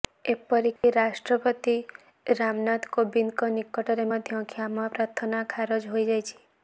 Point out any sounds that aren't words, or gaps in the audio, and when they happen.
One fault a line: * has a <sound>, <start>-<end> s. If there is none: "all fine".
* has a dropout, 0.8-0.8 s